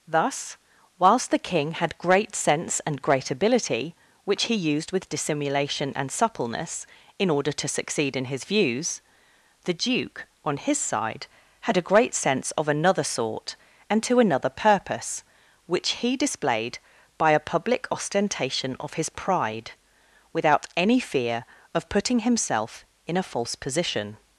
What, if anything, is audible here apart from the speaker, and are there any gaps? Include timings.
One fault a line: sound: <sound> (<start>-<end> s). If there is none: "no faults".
no faults